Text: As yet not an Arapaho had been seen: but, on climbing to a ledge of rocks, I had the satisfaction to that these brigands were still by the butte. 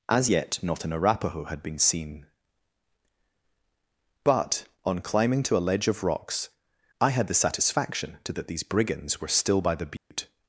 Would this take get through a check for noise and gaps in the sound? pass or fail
fail